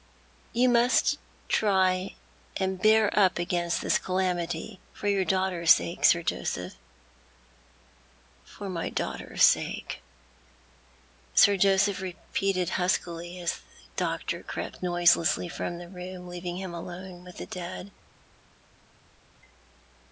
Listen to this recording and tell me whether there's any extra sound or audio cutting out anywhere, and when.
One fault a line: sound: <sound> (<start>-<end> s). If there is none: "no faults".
no faults